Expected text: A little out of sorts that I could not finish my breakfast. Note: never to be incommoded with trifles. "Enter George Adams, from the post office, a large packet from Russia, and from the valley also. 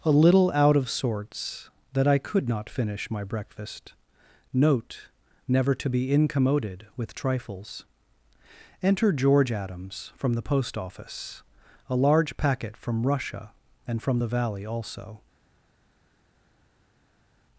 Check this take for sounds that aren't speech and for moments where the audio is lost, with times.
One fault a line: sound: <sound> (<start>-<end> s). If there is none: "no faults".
no faults